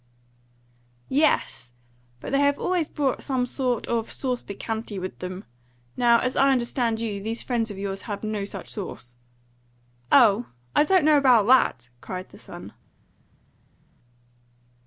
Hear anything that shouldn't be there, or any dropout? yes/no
no